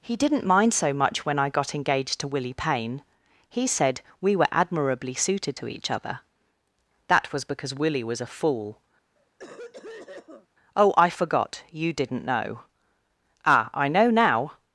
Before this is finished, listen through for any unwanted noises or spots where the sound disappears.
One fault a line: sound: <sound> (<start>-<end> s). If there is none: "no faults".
sound: cough (9.1-10.5 s)